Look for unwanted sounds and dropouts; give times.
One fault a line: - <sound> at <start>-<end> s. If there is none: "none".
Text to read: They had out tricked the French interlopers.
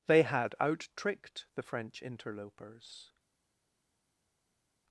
none